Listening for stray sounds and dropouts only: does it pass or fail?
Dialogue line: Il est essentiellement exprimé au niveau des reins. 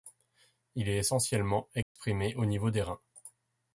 fail